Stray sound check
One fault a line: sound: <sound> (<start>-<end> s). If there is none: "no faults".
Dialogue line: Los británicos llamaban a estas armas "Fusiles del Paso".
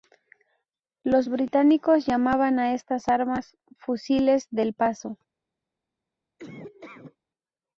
sound: laugh (6.4-7.2 s)